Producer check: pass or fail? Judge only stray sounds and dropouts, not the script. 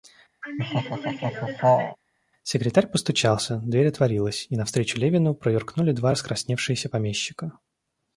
fail